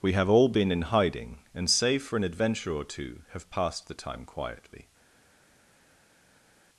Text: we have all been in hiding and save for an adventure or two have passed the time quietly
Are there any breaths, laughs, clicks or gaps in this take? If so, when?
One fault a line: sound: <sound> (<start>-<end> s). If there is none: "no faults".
no faults